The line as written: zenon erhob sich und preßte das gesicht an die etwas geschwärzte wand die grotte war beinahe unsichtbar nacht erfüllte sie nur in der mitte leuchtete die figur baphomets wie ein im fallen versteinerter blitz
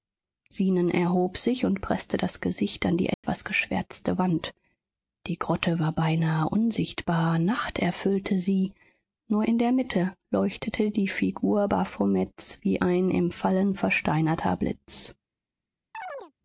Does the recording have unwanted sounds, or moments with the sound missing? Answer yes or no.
yes